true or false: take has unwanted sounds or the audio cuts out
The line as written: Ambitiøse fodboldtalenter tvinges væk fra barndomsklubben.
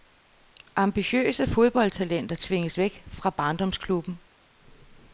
false